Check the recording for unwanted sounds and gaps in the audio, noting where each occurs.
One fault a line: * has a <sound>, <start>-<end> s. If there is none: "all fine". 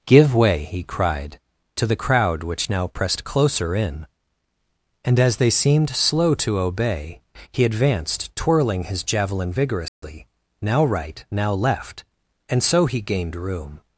* has a dropout, 9.9-10.0 s